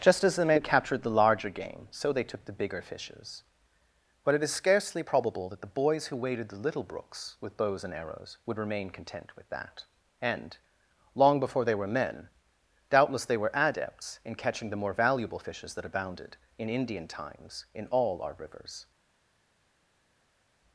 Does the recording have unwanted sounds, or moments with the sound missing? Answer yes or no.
no